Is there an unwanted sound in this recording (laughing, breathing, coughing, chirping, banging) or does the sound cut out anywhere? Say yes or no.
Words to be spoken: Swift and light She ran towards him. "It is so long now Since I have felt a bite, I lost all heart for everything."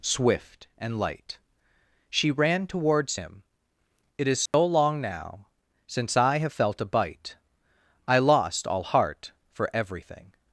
yes